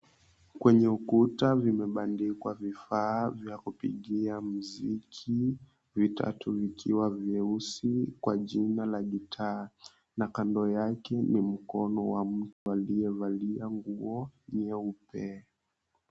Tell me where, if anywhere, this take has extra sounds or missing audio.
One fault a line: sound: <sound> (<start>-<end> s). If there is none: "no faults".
sound: dropout (12.5-12.7 s)